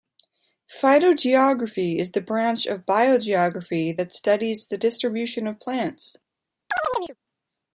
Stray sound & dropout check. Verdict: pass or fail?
fail